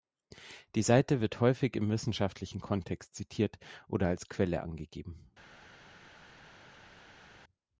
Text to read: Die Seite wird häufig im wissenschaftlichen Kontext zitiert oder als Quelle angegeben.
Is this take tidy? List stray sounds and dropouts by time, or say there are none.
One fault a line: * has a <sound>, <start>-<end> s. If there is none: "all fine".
all fine